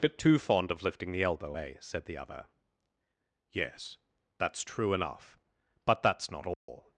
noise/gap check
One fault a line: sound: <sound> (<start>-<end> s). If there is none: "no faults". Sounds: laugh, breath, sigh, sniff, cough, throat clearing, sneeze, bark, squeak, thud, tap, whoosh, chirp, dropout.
sound: dropout (6.5-6.7 s)